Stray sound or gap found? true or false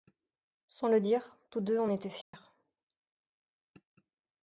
true